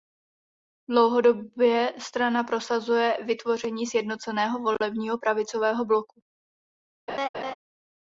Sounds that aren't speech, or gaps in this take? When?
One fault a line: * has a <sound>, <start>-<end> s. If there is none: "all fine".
* has a laugh, 7.1-7.5 s